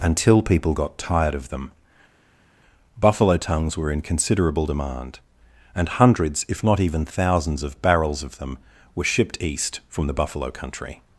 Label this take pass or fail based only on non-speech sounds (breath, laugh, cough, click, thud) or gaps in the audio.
pass